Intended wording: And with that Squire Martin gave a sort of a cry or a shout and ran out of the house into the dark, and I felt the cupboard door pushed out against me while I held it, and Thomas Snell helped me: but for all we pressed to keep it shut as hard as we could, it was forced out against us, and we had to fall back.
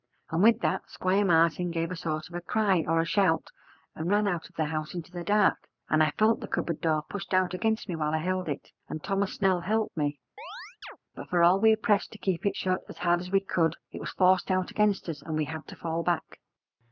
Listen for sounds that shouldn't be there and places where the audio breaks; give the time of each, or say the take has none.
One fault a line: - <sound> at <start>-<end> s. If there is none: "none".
- chirp at 10.4-11.0 s